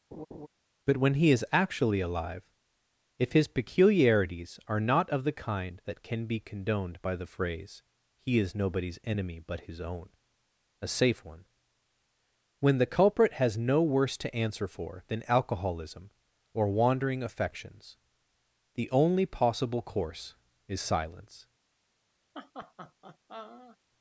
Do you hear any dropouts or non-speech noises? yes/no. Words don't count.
yes